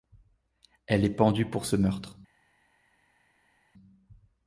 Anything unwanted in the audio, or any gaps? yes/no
no